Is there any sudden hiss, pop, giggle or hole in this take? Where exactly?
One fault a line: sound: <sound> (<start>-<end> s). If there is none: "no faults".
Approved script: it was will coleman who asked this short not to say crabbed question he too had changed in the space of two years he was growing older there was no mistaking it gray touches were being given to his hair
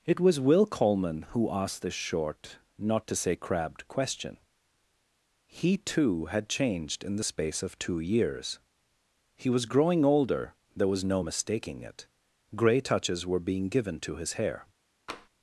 sound: tap (15.1-15.3 s)